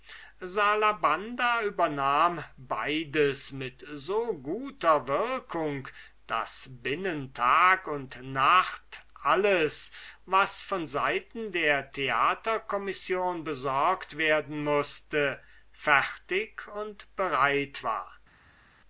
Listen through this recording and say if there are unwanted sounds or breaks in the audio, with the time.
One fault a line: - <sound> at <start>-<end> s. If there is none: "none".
none